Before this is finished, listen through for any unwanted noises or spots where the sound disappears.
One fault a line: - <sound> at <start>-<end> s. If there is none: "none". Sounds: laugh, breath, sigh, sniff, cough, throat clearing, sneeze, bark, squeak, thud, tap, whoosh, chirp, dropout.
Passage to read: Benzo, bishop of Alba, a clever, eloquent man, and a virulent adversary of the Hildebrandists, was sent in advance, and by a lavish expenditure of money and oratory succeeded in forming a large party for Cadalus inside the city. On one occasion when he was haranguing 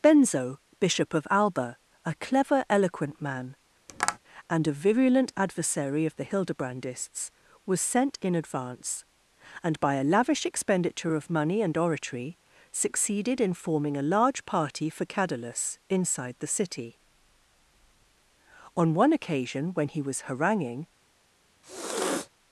- tap at 3.9-4.2 s
- sniff at 21.6-22.3 s